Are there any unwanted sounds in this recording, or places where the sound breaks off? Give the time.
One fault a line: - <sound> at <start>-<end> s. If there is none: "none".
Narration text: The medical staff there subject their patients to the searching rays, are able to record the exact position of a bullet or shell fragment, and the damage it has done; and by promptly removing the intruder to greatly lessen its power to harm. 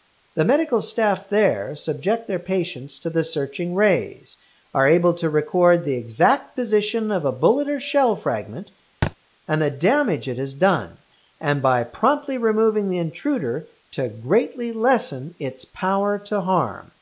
- thud at 9.0-9.2 s